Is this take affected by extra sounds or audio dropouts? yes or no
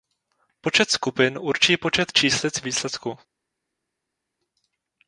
no